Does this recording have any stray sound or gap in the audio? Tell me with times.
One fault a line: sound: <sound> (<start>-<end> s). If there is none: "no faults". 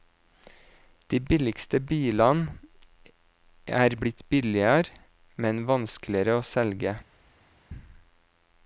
no faults